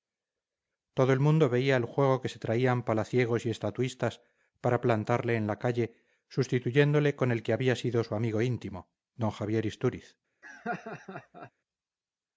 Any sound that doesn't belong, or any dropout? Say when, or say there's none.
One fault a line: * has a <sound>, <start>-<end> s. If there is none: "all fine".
* has a laugh, 10.4-11.5 s